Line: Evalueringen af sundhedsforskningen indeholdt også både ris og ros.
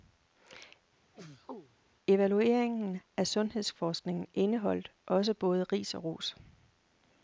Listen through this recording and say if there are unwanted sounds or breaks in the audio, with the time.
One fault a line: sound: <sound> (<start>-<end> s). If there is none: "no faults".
sound: sneeze (1.1-1.8 s)